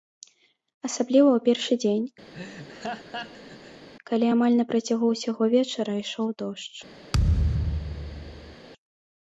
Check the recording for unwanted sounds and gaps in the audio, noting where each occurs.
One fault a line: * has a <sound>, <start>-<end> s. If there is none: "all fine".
* has a laugh, 2.3-3.9 s
* has a thud, 7.1-8.6 s